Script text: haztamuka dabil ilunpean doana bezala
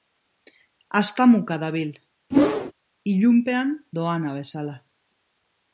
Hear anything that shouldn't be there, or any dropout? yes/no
yes